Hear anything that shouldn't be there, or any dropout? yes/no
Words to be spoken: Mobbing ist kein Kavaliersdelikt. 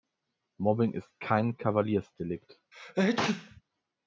yes